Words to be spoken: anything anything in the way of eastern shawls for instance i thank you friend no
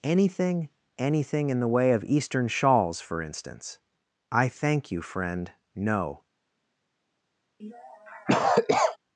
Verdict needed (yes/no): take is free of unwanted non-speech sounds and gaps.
no